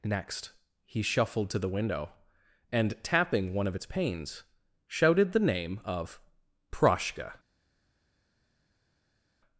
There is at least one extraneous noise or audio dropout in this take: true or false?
false